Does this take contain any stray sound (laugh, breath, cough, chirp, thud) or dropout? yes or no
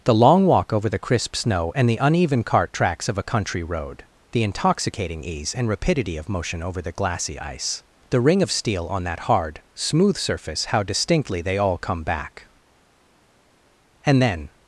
no